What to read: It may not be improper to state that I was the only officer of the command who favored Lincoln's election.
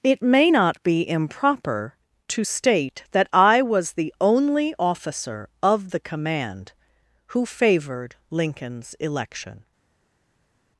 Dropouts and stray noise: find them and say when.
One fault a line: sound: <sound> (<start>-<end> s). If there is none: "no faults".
no faults